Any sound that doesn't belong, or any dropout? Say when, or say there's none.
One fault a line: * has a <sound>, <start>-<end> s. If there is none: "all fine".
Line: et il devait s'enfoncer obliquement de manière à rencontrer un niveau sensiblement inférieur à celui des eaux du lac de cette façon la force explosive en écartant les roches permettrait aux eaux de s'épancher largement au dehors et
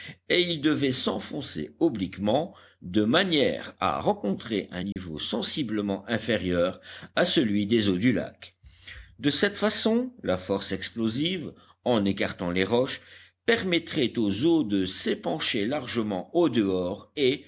* has a dropout, 4.9-5.0 s